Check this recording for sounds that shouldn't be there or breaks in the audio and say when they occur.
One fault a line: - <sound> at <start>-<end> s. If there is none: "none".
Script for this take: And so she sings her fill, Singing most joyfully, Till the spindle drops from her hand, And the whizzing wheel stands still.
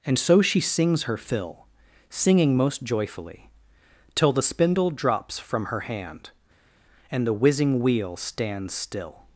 none